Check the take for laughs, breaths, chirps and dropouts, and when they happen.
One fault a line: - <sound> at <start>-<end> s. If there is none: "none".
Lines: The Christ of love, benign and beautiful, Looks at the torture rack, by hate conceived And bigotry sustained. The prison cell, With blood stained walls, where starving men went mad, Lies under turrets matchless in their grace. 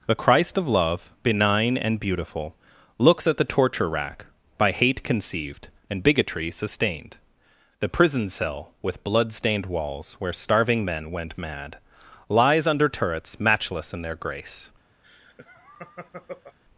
- laugh at 15.0-16.6 s